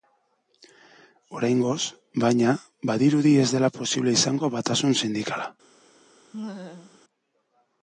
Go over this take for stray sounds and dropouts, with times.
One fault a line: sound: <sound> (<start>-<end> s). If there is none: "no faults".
sound: laugh (6.3-7.0 s)